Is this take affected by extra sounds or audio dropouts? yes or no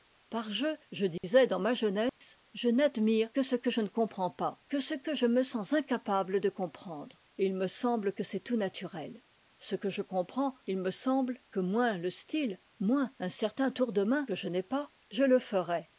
yes